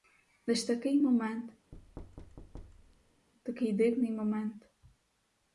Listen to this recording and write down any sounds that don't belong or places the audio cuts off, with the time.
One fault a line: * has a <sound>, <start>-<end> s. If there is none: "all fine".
* has a thud, 1.7-3.3 s